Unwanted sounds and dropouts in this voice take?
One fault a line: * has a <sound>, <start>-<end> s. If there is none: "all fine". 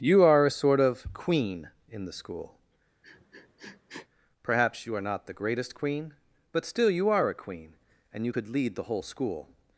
* has a sniff, 3.0-4.1 s